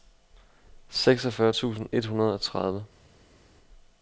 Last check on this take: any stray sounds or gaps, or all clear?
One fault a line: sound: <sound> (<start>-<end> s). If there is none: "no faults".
no faults